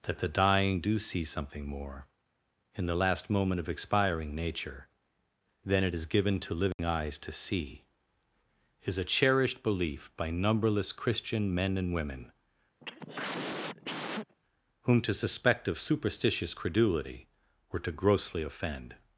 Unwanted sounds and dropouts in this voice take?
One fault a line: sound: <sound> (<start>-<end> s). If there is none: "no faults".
sound: dropout (6.7-6.8 s)
sound: cough (12.8-14.4 s)